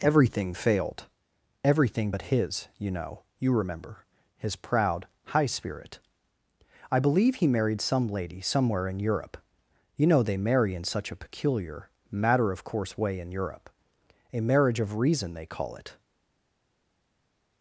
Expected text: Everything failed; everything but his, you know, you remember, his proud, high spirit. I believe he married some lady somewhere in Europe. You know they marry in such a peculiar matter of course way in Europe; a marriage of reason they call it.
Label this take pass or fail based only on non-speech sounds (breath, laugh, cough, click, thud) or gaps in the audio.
pass